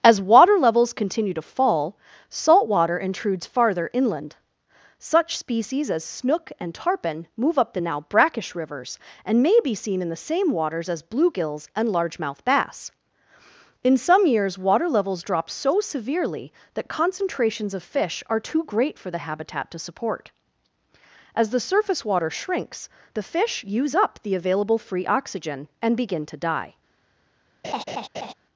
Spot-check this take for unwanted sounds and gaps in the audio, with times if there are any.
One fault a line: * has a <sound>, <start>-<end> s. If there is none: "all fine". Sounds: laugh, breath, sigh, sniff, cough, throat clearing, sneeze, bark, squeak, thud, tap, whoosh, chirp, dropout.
* has a laugh, 27.6-28.3 s